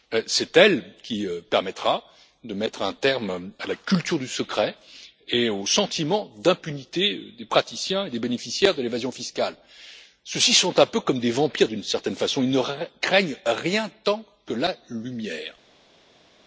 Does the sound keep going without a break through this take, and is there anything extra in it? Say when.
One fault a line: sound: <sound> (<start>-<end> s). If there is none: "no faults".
no faults